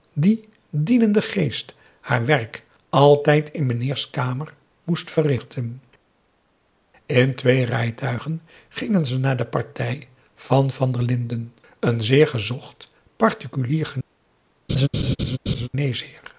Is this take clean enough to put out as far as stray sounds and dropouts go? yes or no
no